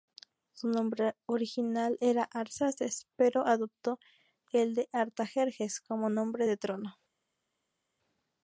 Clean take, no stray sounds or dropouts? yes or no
yes